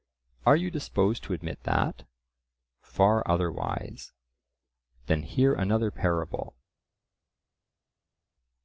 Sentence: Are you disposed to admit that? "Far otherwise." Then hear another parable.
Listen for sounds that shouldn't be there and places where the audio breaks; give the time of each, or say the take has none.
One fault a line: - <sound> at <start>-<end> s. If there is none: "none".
none